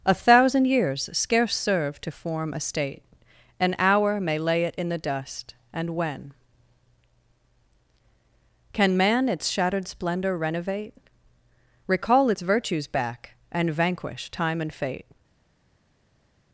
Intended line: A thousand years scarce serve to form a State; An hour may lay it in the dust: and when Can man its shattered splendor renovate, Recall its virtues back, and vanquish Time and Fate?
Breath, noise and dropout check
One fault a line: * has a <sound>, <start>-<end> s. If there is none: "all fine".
all fine